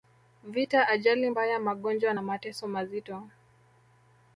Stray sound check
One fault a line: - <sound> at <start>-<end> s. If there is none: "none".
none